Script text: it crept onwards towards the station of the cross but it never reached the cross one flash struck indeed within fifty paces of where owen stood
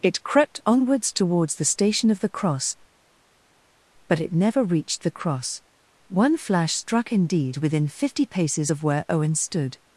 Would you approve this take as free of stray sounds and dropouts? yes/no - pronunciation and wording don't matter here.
yes